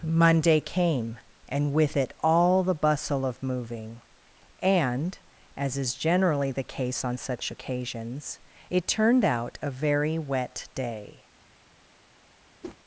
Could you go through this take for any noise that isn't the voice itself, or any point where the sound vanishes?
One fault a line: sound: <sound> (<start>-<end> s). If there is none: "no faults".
sound: whoosh (12.6-12.8 s)